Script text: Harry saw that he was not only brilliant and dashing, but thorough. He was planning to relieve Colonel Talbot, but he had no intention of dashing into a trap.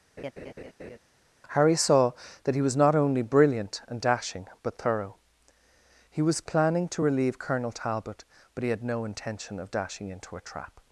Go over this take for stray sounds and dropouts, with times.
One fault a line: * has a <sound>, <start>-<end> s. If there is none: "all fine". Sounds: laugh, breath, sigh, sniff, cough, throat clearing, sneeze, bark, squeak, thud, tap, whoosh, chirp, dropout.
* has a laugh, 0.2-1.0 s